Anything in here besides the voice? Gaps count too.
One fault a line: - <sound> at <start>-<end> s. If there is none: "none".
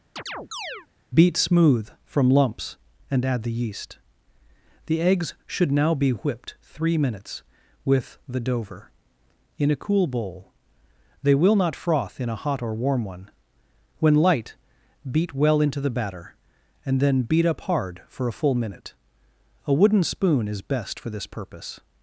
- chirp at 0.2-0.9 s